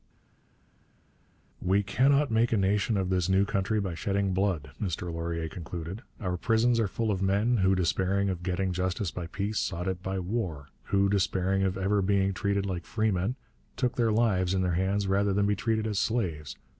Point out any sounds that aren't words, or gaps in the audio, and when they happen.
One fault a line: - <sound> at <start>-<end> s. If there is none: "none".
none